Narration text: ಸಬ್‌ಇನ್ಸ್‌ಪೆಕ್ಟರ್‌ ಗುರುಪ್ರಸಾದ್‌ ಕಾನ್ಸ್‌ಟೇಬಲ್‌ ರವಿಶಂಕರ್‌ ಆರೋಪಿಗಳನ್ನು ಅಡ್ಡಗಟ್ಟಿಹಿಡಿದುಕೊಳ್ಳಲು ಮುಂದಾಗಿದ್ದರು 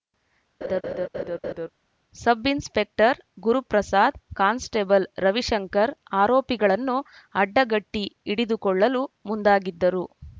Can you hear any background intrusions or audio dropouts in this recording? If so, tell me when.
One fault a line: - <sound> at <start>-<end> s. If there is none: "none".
- laugh at 0.6-1.7 s